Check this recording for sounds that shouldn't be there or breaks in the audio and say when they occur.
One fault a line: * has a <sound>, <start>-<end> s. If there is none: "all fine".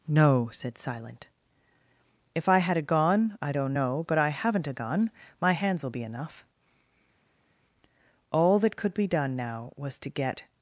all fine